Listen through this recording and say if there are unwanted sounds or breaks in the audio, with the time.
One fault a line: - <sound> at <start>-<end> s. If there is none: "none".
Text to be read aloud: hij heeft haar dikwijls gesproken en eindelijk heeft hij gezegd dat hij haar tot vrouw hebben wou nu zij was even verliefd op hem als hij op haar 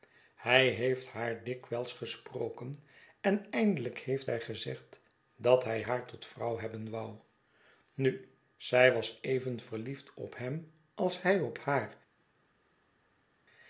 none